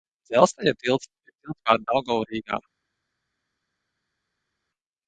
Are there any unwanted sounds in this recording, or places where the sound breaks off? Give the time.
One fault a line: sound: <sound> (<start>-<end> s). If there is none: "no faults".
no faults